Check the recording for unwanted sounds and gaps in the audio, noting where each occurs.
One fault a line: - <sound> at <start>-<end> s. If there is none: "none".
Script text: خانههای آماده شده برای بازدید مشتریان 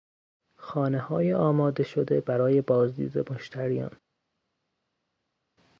none